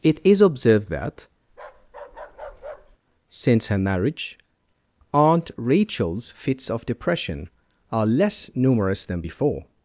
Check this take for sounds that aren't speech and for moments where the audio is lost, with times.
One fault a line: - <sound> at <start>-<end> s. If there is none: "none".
- bark at 1.5-3.0 s